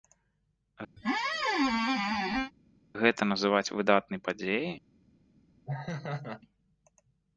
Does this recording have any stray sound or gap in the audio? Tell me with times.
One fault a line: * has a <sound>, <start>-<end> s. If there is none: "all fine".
* has a squeak, 1.0-2.5 s
* has a laugh, 5.7-6.4 s